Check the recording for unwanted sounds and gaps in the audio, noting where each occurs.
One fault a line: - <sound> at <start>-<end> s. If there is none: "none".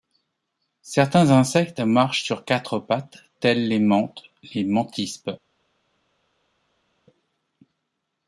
none